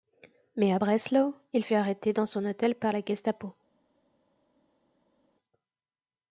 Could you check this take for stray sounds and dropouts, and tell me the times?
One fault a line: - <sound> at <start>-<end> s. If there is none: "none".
none